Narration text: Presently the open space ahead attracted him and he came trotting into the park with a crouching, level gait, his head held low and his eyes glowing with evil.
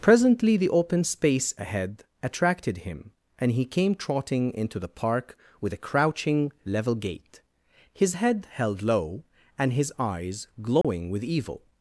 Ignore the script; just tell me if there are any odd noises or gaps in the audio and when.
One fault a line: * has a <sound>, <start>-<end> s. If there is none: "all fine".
* has a dropout, 10.8-10.8 s